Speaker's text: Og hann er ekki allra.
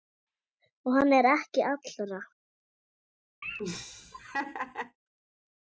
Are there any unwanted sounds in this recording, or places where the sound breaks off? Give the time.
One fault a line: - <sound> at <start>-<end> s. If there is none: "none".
- laugh at 3.4-5.0 s